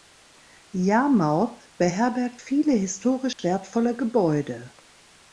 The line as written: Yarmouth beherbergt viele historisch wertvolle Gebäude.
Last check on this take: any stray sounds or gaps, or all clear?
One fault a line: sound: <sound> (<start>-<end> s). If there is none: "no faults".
sound: dropout (3.3-3.4 s)